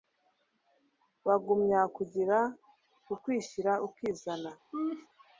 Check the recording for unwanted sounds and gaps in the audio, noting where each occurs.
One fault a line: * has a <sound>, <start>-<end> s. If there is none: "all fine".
* has a laugh, 4.7-5.1 s